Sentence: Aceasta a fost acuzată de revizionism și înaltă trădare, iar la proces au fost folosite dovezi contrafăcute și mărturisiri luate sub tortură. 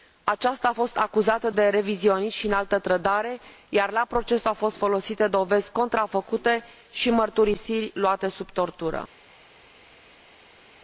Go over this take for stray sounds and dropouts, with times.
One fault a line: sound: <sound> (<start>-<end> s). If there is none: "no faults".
no faults